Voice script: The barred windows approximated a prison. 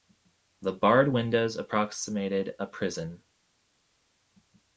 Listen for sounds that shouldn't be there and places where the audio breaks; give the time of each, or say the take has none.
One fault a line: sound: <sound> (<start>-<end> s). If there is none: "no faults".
no faults